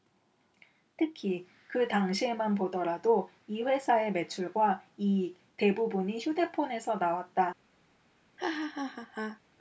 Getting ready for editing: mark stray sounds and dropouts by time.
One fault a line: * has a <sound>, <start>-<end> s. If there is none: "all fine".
* has a laugh, 8.4-9.4 s